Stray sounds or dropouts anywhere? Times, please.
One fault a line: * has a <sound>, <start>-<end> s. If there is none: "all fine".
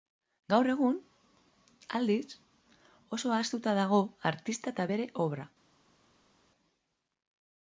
all fine